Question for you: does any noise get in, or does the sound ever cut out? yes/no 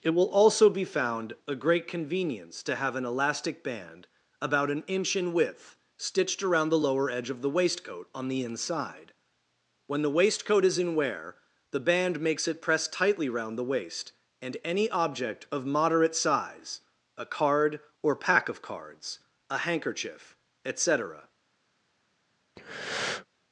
yes